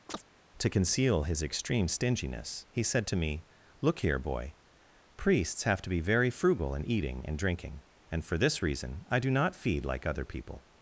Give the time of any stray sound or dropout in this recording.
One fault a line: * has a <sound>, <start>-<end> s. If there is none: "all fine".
* has a chirp, 0.1-0.2 s